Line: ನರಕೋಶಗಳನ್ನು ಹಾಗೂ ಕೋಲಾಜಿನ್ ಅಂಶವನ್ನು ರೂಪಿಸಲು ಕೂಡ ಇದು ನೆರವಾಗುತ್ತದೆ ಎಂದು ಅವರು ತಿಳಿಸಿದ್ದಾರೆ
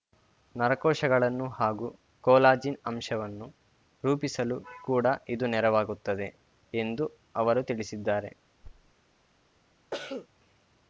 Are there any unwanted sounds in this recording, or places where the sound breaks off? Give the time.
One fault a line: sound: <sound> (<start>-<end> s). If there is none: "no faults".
sound: thud (8.6-8.9 s)
sound: cough (9.9-10.3 s)